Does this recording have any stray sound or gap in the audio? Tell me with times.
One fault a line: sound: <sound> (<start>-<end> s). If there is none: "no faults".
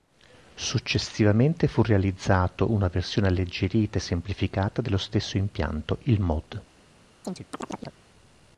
sound: chirp (7.2-8.0 s)